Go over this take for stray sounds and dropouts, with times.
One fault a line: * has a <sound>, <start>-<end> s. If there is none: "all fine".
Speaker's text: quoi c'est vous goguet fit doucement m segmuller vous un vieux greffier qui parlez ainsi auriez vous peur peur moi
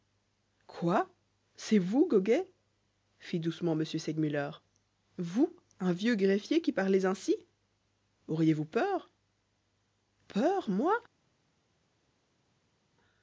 all fine